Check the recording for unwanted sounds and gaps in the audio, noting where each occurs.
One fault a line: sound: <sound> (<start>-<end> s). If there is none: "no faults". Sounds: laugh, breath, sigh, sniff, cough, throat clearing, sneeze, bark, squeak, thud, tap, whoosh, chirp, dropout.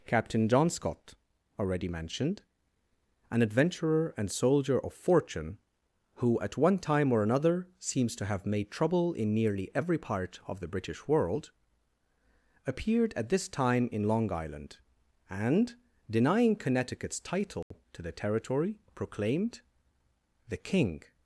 sound: dropout (17.6-17.7 s)